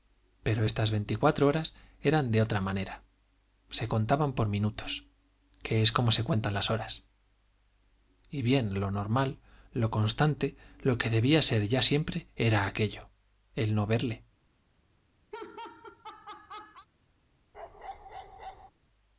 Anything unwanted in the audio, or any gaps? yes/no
yes